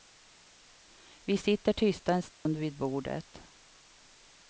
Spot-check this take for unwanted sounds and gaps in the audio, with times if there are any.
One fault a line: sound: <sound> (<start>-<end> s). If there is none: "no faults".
sound: dropout (2.3-2.5 s)